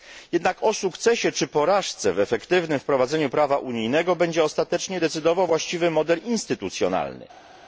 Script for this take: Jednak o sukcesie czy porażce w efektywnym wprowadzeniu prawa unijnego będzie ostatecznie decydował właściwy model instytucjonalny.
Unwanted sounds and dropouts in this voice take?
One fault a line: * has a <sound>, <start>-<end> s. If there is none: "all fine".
all fine